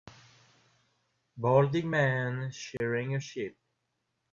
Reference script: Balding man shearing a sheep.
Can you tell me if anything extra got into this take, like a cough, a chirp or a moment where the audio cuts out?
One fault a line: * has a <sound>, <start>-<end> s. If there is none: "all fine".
* has a dropout, 2.8-2.8 s